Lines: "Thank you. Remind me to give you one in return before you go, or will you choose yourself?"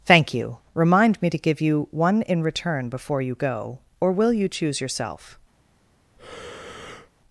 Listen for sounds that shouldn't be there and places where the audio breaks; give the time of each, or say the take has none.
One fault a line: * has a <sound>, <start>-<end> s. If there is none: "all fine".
* has a breath, 6.2-7.1 s